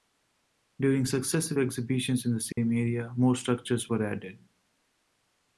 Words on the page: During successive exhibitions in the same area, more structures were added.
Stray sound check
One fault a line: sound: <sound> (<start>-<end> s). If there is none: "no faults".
sound: dropout (2.5-2.6 s)